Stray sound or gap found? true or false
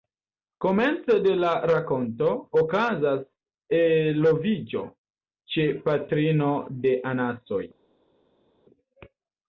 false